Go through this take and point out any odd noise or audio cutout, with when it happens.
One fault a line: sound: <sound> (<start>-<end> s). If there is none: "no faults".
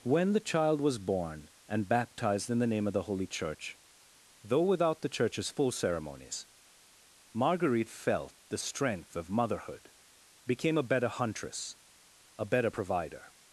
no faults